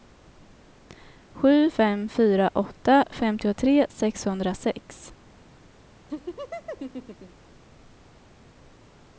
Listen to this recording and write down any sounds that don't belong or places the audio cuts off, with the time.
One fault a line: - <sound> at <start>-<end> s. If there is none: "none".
- laugh at 6.1-7.5 s